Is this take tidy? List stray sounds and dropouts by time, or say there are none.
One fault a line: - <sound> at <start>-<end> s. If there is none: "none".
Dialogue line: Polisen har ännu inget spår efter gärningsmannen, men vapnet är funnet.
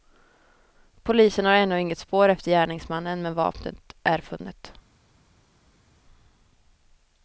none